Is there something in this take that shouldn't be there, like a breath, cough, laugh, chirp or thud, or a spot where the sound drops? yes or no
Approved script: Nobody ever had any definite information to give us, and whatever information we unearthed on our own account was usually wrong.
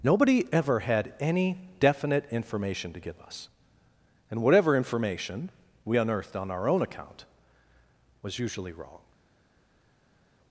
no